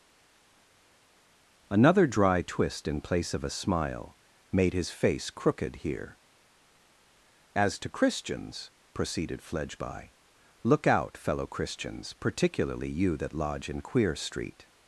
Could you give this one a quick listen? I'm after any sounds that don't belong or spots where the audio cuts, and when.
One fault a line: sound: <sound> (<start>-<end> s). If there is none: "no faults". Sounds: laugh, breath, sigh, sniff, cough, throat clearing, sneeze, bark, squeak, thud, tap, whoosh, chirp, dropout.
no faults